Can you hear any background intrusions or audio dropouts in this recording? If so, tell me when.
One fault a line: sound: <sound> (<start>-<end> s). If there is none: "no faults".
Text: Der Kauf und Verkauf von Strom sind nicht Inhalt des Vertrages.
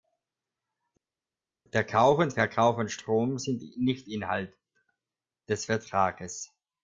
no faults